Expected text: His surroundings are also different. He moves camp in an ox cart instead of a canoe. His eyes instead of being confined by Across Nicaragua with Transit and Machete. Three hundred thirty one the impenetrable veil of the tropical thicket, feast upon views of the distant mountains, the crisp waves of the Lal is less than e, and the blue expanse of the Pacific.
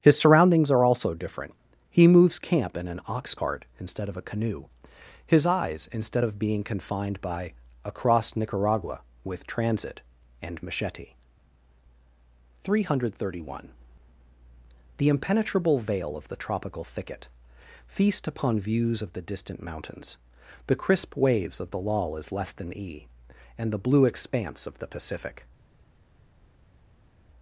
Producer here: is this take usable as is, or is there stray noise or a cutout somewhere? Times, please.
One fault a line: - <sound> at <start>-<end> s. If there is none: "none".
none